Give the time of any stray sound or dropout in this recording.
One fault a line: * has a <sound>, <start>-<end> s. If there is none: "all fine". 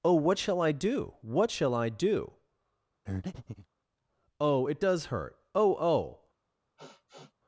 * has a breath, 3.1-3.7 s
* has a sniff, 6.8-7.3 s